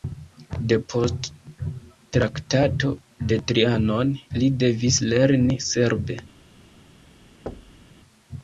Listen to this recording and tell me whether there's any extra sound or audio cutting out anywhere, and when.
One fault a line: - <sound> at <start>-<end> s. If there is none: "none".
- thud at 7.5-7.9 s